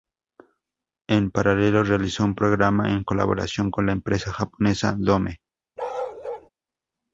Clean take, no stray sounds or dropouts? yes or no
no